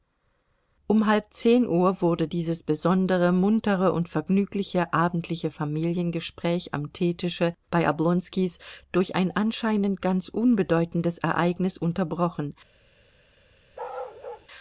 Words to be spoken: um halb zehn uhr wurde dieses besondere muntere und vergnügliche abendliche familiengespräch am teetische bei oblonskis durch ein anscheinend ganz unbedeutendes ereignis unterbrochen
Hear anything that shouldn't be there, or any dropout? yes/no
yes